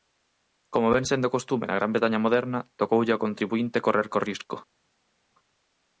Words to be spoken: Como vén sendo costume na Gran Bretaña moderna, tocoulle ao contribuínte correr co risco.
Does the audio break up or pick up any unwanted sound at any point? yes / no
no